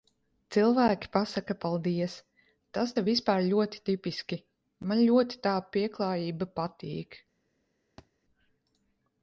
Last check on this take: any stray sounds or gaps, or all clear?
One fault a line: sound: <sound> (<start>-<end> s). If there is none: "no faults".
sound: thud (8.0-8.1 s)